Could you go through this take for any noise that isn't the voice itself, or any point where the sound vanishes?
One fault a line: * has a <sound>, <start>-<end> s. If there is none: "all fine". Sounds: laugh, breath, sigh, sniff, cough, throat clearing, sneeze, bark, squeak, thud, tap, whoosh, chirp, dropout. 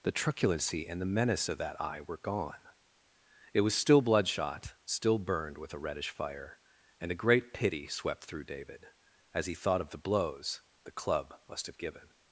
all fine